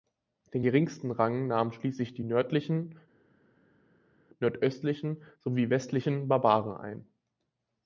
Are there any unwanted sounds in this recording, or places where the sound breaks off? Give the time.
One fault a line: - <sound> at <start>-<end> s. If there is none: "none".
none